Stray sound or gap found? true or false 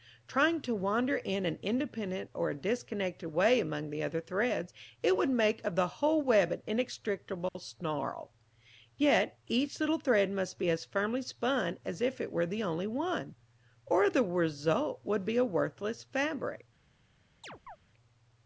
true